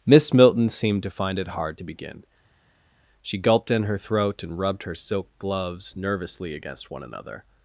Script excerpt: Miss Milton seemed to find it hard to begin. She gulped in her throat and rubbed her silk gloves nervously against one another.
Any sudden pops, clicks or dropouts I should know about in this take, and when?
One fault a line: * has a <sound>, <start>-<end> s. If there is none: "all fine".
all fine